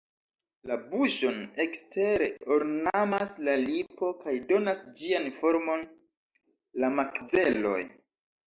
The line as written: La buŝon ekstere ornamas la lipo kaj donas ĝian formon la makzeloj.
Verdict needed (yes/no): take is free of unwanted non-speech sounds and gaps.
yes